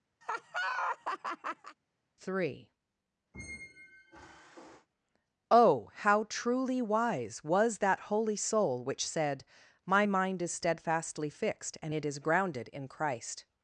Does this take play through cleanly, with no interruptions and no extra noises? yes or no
no